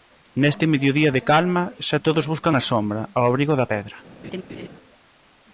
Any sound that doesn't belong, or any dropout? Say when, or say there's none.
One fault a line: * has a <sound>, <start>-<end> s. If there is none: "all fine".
* has a laugh, 4.2-4.7 s